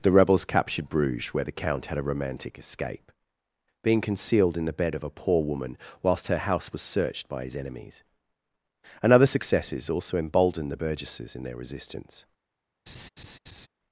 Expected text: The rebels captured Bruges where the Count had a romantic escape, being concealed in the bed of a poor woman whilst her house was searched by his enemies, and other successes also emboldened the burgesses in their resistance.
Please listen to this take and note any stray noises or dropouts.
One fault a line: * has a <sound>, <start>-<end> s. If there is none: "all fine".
* has a laugh, 12.9-13.7 s